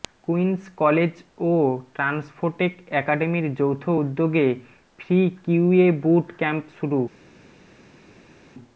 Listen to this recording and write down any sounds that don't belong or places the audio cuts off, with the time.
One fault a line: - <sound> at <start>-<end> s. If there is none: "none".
none